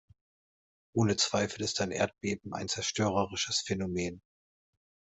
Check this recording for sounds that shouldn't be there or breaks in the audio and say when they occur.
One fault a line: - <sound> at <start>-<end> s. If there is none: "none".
none